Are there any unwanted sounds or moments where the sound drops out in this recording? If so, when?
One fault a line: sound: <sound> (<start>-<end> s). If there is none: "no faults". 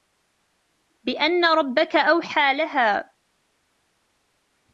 no faults